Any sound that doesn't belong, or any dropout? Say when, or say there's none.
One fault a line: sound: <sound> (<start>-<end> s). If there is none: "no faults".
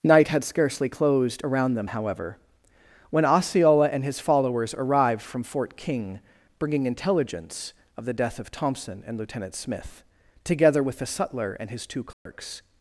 sound: dropout (12.1-12.3 s)